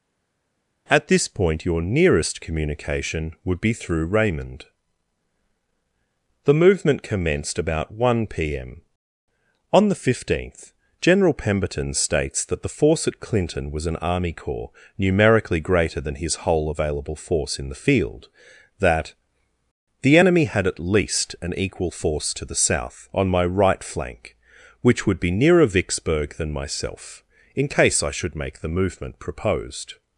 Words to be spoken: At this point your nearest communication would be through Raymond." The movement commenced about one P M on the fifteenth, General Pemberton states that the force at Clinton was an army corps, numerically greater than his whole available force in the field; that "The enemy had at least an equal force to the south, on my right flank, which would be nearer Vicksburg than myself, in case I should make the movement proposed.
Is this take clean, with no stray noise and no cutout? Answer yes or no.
yes